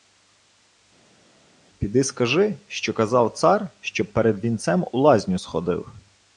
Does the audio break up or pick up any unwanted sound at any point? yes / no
no